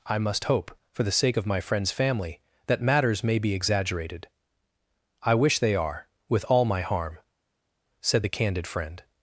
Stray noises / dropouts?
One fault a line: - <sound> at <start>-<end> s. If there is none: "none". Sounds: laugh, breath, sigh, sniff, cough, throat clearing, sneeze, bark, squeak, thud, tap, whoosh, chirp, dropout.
none